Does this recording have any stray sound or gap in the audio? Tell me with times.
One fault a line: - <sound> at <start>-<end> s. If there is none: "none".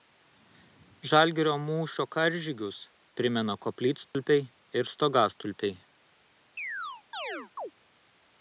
- dropout at 4.1-4.1 s
- chirp at 6.6-7.7 s